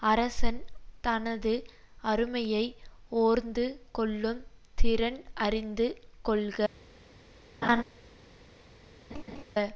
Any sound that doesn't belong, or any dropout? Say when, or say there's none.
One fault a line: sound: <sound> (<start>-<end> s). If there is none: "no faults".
sound: laugh (7.6-7.8 s)
sound: laugh (9.1-9.4 s)